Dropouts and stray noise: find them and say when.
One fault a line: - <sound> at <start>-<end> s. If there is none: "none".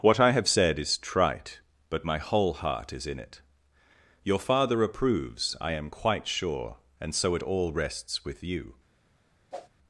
- whoosh at 9.5-9.7 s